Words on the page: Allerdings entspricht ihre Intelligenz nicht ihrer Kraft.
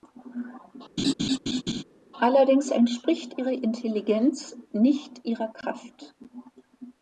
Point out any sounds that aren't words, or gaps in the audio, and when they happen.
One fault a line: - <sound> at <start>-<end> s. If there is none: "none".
- laugh at 1.0-1.8 s